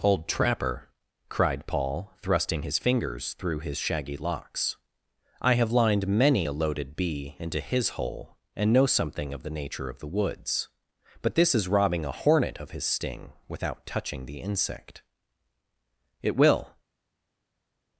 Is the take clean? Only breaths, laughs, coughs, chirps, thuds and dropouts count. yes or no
yes